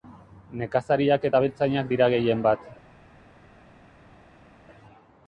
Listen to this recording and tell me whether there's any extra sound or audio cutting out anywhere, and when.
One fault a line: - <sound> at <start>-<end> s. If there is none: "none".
none